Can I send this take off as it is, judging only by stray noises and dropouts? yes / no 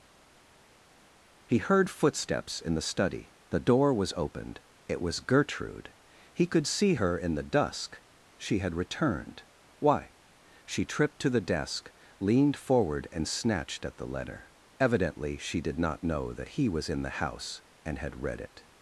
yes